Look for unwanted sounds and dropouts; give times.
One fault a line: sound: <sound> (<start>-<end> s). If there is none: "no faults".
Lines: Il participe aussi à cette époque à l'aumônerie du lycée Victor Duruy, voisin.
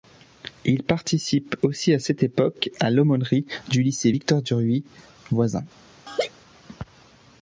sound: laugh (6.1-6.3 s)